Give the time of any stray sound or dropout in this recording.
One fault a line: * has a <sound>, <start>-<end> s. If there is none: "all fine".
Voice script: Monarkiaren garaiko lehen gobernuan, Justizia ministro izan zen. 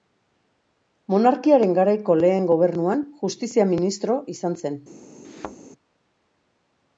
* has a thud, 5.2-5.6 s